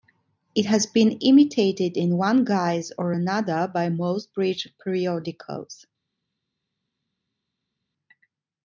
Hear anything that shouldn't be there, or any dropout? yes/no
no